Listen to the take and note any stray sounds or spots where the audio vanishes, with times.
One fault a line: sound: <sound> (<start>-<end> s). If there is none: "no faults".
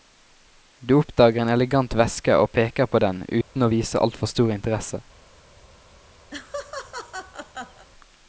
sound: dropout (3.4-3.6 s)
sound: laugh (6.3-7.9 s)